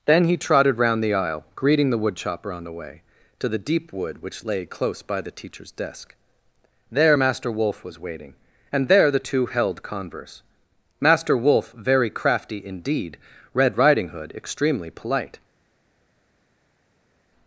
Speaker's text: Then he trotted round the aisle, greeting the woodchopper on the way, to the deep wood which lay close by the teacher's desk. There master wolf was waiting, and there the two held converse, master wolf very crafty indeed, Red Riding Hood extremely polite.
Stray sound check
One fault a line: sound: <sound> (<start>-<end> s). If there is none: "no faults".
no faults